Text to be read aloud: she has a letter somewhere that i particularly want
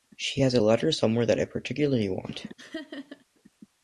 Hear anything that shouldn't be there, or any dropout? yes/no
yes